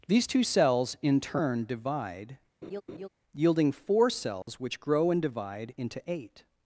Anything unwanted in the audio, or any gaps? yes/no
yes